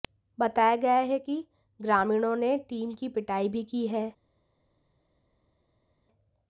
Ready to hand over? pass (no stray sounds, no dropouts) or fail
pass